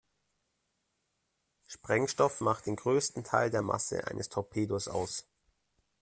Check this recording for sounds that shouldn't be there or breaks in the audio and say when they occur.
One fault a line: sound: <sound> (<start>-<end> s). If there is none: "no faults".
no faults